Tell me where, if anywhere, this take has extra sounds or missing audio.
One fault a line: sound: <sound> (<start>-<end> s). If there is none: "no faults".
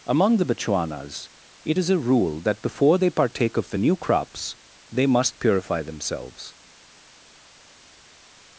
no faults